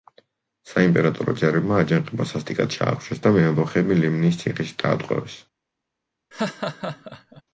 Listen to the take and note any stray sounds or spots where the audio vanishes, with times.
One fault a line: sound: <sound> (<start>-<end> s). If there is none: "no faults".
sound: laugh (6.3-7.4 s)